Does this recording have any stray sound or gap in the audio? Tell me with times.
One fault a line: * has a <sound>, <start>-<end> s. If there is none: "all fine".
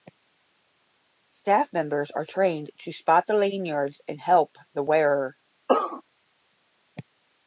* has a cough, 5.7-6.0 s